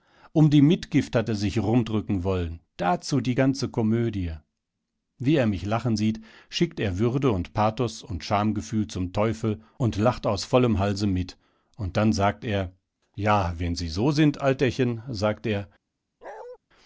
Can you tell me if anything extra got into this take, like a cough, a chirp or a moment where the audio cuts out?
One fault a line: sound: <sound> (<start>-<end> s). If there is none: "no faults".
sound: bark (16.2-16.6 s)